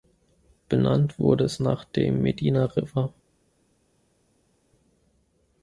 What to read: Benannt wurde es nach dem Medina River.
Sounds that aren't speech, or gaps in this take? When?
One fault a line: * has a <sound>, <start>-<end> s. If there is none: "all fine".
all fine